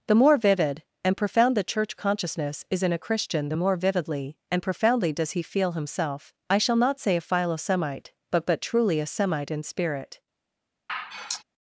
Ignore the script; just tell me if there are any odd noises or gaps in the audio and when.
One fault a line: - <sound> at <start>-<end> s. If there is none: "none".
- sigh at 10.9-11.4 s